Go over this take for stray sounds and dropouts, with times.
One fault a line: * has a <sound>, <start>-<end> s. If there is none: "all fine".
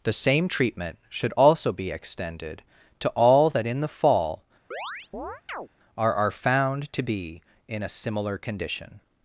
* has a chirp, 4.7-5.7 s